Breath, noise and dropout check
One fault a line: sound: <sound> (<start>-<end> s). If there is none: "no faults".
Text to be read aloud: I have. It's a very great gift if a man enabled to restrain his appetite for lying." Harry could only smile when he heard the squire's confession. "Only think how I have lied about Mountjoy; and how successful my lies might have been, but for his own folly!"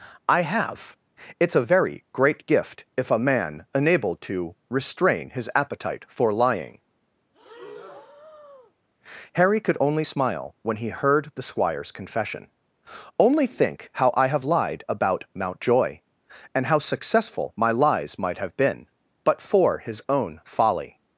sound: breath (7.3-8.7 s)